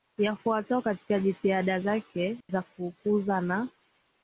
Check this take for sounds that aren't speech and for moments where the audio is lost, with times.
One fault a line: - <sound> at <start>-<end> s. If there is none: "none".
- dropout at 2.4-2.5 s